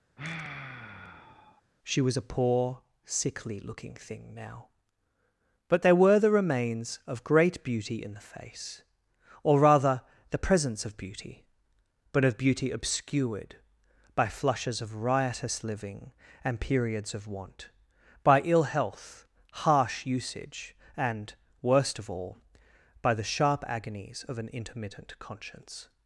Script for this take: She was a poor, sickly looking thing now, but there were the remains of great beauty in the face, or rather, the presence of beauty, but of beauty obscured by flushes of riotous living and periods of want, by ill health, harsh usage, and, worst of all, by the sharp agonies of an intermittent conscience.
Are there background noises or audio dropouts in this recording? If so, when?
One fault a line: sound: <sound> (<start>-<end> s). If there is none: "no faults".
sound: sigh (0.2-1.6 s)